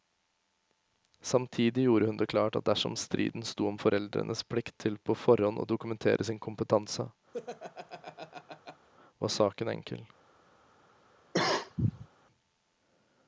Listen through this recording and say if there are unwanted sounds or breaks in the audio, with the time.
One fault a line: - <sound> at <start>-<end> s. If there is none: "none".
- laugh at 7.3-8.9 s
- cough at 11.3-12.1 s